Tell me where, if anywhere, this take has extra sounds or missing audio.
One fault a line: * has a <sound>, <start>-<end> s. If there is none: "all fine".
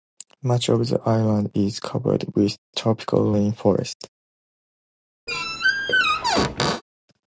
* has a squeak, 5.3-6.8 s